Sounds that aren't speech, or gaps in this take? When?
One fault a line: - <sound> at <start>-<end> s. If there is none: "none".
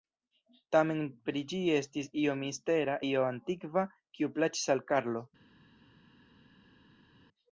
none